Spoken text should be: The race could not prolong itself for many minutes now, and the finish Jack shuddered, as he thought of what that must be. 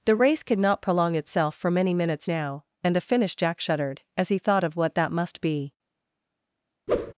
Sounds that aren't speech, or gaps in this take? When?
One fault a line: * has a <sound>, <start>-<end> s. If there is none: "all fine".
* has a whoosh, 6.9-7.1 s